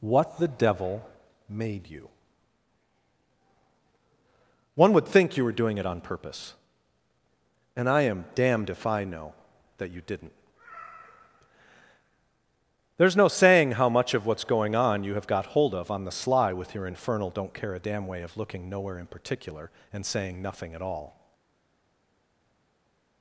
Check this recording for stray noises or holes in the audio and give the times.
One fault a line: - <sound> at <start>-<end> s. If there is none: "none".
none